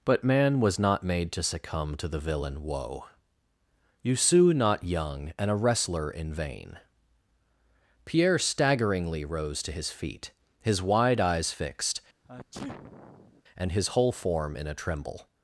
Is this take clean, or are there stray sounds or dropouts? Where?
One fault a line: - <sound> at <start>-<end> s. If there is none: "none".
- sneeze at 12.2-13.4 s